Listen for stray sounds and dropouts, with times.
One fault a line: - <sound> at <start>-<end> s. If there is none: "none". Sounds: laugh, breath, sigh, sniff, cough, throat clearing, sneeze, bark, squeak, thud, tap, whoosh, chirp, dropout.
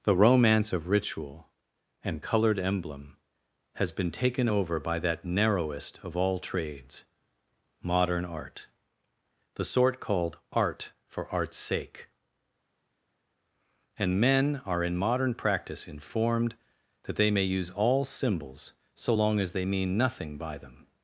none